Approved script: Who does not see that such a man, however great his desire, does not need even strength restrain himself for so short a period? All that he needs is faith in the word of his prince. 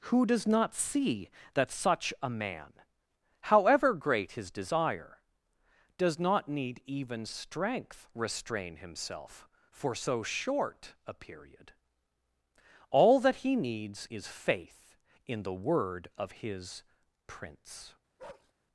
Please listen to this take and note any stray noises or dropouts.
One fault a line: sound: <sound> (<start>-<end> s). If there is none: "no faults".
sound: bark (18.2-18.5 s)